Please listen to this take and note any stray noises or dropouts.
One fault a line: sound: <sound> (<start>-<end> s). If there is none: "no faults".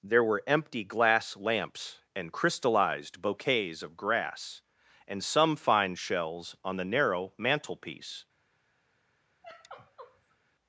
sound: sigh (9.4-10.4 s)